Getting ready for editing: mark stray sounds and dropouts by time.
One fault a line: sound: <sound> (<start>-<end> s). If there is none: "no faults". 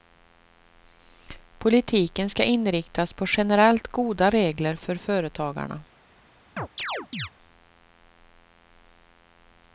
sound: chirp (6.6-7.3 s)